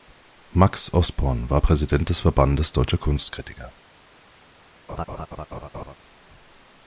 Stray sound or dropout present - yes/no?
yes